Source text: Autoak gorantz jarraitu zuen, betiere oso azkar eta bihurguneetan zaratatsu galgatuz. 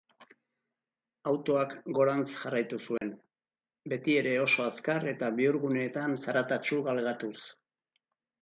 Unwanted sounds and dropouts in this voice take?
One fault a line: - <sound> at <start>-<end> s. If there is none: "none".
- dropout at 3.0-3.0 s